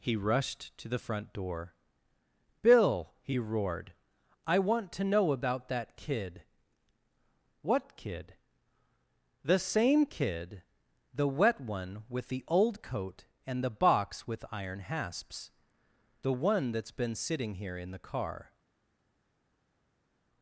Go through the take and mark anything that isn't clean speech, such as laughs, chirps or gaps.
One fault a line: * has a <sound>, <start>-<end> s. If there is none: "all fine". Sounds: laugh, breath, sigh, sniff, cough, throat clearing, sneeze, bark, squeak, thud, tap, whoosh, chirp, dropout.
all fine